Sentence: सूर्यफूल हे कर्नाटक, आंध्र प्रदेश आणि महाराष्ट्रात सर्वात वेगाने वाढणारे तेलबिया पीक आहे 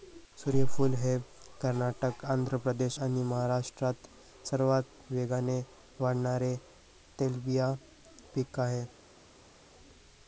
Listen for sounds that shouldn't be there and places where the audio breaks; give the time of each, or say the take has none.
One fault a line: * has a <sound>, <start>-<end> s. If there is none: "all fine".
all fine